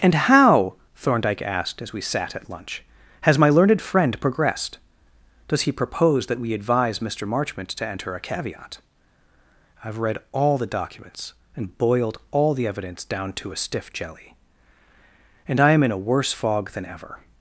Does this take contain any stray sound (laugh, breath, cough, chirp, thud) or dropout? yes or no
no